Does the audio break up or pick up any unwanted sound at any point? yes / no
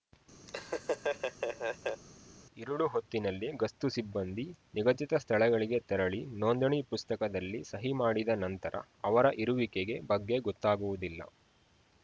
yes